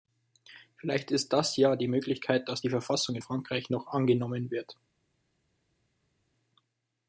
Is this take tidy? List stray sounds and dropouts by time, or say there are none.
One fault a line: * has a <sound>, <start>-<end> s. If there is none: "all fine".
all fine